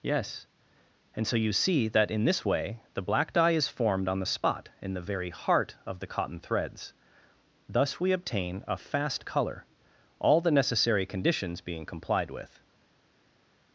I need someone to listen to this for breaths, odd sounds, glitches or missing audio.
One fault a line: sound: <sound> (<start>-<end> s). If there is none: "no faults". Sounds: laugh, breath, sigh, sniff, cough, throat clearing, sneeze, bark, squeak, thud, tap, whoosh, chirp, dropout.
no faults